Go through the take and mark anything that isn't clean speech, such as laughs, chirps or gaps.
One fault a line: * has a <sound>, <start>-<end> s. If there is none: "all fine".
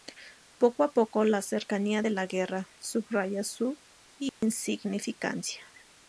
* has a dropout, 4.3-4.4 s